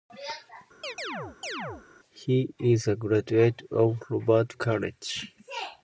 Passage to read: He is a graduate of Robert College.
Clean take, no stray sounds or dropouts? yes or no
no